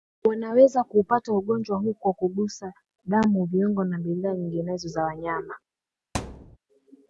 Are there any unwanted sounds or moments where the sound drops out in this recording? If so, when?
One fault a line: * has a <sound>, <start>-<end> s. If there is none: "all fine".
* has a thud, 6.1-6.6 s